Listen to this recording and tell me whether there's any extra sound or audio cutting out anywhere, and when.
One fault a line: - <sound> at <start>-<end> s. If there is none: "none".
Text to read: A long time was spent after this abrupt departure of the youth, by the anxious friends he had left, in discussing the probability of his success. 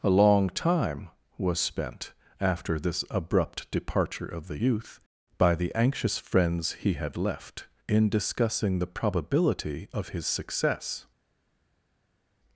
none